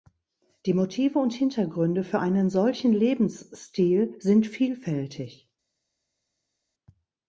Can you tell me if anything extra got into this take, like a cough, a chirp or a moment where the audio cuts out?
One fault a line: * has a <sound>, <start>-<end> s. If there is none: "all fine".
all fine